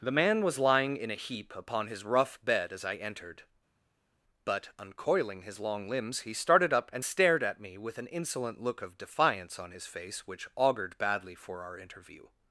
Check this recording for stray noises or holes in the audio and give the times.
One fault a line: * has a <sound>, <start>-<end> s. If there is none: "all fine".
all fine